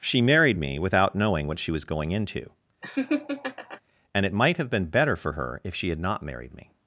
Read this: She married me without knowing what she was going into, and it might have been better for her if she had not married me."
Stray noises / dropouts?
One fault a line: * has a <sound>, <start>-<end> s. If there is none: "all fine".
* has a laugh, 2.8-3.8 s